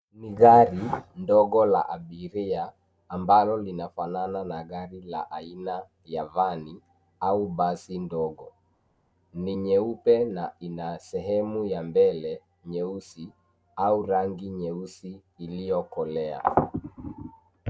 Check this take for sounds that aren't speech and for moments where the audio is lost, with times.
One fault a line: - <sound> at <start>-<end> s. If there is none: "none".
none